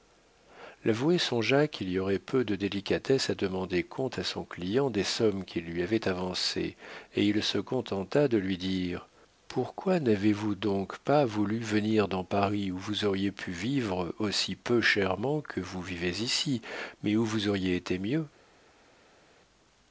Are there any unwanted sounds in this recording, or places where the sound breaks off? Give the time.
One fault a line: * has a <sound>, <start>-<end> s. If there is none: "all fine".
all fine